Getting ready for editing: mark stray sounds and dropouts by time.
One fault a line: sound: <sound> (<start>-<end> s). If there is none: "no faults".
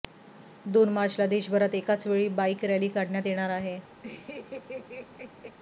sound: laugh (4.0-5.6 s)